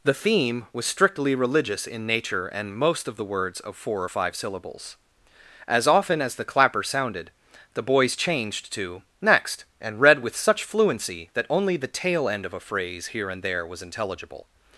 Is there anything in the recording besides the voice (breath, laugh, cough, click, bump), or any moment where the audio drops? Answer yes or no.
no